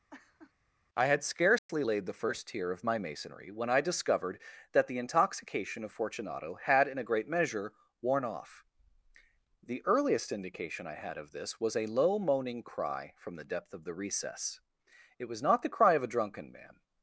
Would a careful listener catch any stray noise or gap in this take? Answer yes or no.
yes